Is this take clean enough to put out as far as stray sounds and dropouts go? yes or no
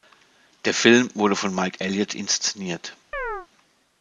no